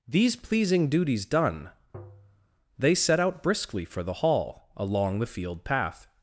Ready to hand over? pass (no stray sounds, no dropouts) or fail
fail